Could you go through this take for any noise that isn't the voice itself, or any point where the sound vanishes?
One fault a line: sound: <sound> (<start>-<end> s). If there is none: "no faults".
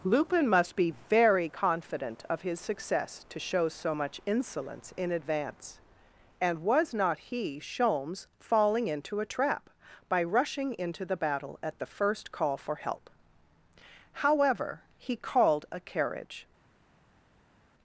no faults